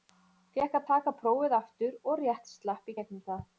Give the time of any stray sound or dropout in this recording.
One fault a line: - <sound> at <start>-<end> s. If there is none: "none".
none